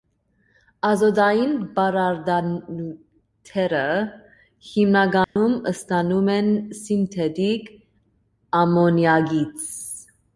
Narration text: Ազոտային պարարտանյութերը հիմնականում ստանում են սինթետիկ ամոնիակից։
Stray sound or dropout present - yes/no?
yes